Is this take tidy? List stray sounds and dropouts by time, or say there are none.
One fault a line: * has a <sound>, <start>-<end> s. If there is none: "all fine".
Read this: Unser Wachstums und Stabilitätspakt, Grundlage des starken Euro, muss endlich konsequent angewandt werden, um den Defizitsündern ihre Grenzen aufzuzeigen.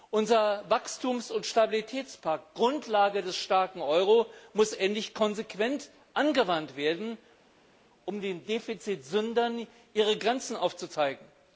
all fine